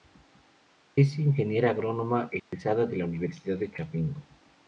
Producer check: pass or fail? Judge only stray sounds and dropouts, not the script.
fail